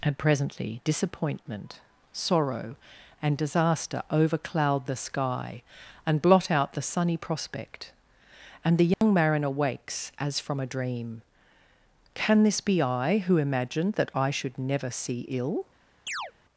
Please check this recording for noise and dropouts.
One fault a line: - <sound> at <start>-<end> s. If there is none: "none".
- dropout at 8.9-9.0 s
- chirp at 16.1-16.3 s